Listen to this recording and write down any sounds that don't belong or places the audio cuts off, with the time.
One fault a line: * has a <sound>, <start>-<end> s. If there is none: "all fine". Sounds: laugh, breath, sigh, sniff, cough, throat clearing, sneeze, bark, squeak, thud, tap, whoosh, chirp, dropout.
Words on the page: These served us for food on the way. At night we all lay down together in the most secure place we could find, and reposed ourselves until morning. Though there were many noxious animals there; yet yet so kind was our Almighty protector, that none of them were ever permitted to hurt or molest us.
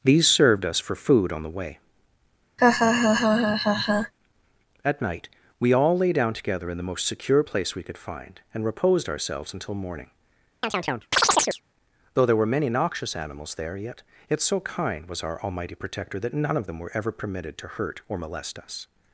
* has a laugh, 2.6-4.1 s
* has a chirp, 10.6-11.6 s